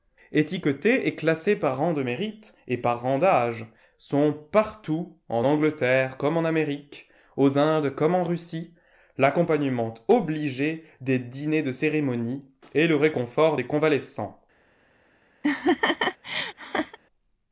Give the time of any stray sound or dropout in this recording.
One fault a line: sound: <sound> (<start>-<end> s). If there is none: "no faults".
sound: laugh (15.4-17.0 s)